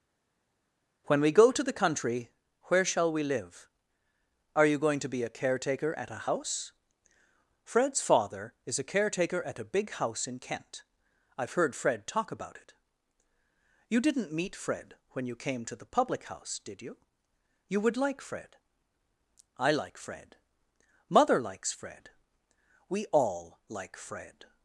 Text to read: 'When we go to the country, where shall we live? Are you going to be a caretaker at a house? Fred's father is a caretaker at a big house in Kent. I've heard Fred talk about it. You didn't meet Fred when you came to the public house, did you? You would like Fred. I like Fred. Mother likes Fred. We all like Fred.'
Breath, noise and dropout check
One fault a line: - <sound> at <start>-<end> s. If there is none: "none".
none